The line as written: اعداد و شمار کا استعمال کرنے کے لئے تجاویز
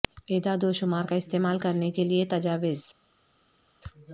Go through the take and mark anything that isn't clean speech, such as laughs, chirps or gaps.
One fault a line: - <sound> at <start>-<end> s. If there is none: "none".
none